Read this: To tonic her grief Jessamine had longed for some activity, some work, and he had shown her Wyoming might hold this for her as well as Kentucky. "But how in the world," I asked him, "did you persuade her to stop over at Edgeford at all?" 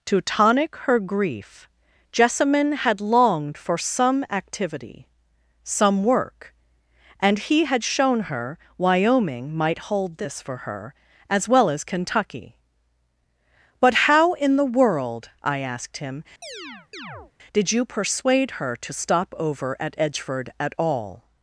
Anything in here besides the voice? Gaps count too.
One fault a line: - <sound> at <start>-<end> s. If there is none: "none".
- chirp at 16.4-17.3 s